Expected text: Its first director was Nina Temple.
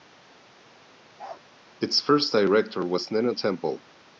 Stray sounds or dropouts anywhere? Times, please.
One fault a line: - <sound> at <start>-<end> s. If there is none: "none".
- bark at 1.2-1.4 s